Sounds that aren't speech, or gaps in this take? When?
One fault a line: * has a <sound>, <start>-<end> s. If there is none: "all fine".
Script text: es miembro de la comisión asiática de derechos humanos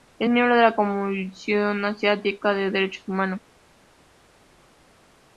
all fine